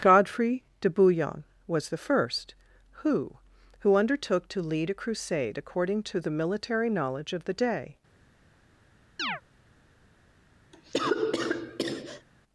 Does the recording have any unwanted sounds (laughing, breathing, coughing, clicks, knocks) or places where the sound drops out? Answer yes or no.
yes